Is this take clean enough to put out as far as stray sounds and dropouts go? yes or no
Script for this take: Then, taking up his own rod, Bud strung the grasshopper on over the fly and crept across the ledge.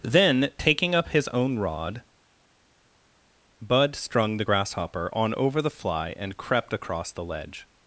yes